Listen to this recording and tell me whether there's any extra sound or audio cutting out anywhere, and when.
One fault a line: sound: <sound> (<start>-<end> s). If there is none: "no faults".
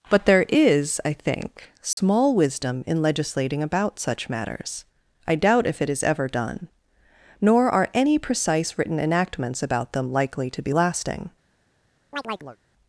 sound: dropout (1.9-2.0 s)
sound: chirp (12.1-12.6 s)